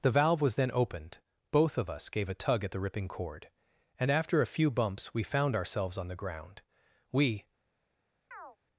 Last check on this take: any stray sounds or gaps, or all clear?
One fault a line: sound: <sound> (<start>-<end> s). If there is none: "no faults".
sound: chirp (8.3-8.6 s)